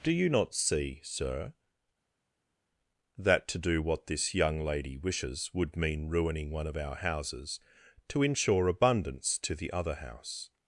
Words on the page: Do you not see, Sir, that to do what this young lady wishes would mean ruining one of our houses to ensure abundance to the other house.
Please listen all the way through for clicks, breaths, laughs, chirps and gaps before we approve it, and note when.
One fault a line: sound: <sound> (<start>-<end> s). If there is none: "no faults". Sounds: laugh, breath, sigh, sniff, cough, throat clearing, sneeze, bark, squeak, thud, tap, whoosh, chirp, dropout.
no faults